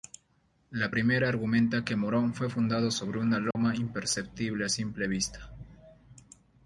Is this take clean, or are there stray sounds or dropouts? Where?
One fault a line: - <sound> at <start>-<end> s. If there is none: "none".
- dropout at 3.5-3.6 s